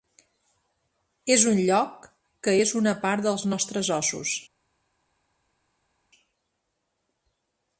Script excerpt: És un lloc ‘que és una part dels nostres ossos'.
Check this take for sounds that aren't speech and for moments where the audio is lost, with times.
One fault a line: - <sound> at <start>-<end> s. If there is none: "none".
none